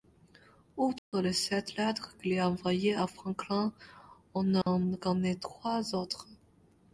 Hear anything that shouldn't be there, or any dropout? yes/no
yes